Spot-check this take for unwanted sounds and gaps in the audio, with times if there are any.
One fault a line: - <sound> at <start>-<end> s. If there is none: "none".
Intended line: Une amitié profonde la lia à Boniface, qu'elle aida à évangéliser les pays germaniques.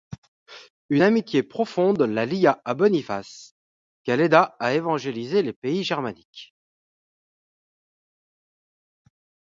none